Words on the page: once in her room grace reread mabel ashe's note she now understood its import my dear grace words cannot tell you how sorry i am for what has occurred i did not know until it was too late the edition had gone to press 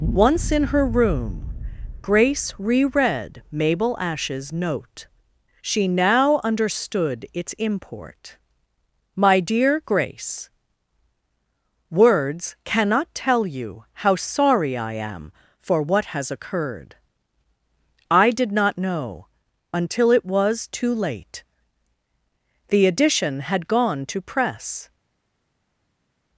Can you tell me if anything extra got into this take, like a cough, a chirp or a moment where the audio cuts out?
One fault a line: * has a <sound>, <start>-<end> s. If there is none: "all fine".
all fine